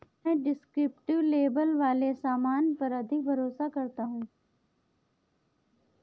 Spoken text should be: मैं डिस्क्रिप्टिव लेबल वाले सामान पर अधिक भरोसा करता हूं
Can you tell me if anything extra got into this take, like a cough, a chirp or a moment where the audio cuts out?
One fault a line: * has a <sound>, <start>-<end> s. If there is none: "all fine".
all fine